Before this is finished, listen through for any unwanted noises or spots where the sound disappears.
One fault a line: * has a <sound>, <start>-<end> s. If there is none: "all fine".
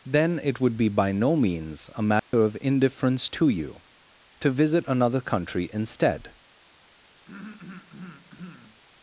* has a dropout, 2.2-2.3 s
* has a throat clearing, 7.3-8.8 s